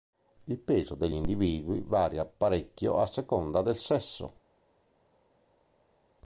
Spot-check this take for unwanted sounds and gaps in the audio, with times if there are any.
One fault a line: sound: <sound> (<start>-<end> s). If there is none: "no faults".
no faults